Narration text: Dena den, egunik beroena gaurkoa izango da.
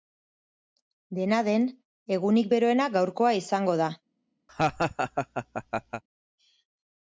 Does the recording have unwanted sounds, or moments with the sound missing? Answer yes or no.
yes